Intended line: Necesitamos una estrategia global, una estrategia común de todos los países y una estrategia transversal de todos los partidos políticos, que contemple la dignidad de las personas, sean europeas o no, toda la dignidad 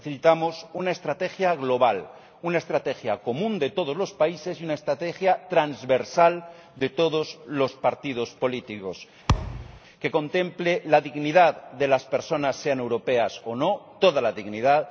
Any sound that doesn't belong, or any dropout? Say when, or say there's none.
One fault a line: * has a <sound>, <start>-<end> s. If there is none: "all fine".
* has a thud, 9.3-9.8 s